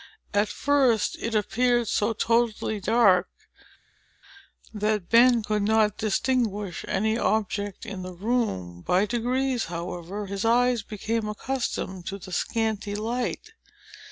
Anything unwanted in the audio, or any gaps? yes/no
no